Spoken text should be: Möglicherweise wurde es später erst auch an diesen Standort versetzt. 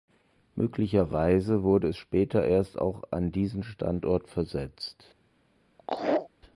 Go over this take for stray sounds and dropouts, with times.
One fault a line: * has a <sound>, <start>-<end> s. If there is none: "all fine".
* has a laugh, 5.8-6.3 s